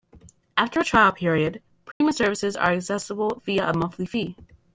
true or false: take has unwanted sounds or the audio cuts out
true